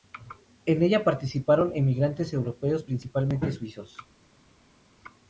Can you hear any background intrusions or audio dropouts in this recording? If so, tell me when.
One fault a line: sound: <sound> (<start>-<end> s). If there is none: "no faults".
no faults